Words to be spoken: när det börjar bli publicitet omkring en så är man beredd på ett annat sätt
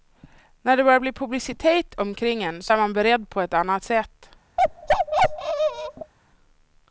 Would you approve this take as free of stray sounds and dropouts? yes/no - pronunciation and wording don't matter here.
no